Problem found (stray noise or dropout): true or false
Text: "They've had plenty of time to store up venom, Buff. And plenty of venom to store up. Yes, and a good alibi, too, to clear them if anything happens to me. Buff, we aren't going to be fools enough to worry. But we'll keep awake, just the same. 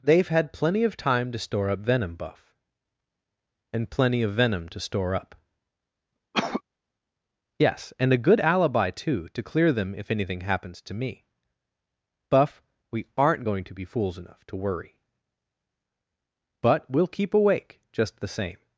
true